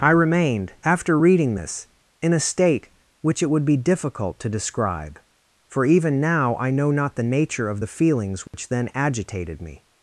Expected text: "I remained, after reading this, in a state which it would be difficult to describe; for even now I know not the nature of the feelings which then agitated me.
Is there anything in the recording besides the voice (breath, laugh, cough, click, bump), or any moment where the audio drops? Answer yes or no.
yes